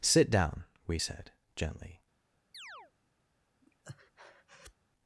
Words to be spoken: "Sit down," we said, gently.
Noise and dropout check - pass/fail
fail